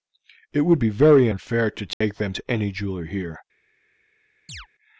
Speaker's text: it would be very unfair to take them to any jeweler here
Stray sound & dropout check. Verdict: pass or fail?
fail